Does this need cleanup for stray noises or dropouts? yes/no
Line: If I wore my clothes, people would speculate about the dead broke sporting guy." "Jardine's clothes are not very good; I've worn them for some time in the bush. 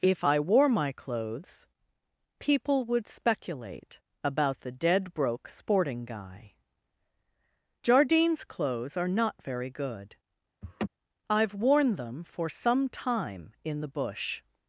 yes